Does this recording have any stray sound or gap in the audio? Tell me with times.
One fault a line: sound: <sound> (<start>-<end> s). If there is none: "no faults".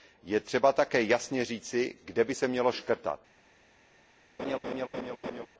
sound: laugh (4.4-5.5 s)